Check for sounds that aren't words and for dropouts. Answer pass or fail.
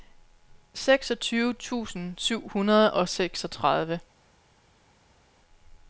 pass